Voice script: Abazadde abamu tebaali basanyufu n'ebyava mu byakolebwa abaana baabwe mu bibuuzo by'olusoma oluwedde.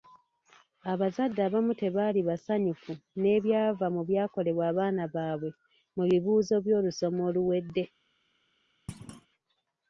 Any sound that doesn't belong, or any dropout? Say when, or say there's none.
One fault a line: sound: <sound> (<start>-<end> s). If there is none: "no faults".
sound: thud (8.9-9.3 s)